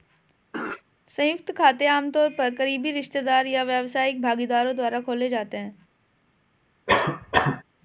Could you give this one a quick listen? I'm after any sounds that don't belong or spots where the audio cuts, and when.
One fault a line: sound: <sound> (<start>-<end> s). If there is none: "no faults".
sound: throat clearing (0.5-0.8 s)
sound: cough (6.9-7.6 s)